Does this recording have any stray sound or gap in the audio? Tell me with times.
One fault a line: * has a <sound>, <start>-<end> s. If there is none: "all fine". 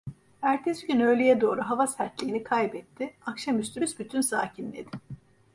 all fine